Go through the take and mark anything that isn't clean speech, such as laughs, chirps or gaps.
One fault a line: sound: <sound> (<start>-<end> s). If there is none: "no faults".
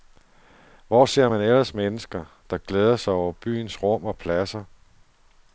no faults